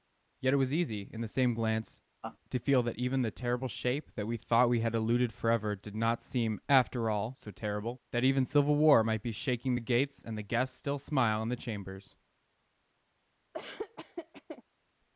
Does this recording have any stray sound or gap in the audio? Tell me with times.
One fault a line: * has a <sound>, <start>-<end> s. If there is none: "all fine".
* has a laugh, 2.2-2.4 s
* has a laugh, 13.5-14.6 s